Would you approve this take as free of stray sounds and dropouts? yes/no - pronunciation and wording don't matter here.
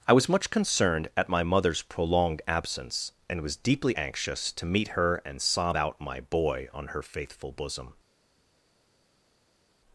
yes